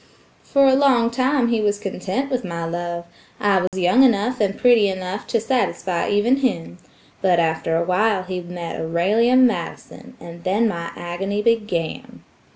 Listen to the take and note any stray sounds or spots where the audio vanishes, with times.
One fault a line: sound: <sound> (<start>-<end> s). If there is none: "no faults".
sound: dropout (3.7-3.7 s)